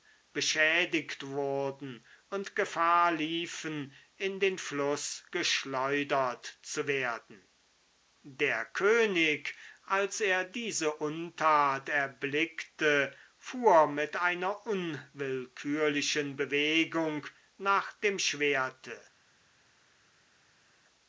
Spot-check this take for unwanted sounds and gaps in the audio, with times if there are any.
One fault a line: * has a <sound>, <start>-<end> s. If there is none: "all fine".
all fine